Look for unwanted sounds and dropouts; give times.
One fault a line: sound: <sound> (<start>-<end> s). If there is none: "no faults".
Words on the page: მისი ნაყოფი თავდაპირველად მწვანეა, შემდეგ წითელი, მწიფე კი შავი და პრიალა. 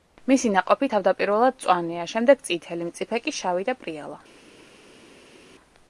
no faults